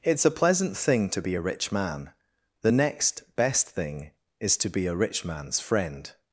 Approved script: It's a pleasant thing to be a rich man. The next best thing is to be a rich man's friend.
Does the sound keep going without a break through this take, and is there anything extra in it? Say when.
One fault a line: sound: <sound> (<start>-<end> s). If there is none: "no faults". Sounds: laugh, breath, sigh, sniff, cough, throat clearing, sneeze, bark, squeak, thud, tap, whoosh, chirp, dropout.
no faults